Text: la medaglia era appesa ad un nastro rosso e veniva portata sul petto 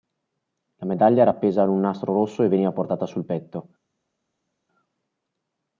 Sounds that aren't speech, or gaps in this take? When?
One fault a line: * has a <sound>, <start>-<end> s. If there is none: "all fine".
all fine